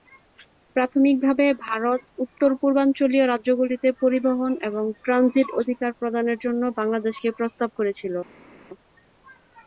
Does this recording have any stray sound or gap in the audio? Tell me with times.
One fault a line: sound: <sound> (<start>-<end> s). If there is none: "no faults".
no faults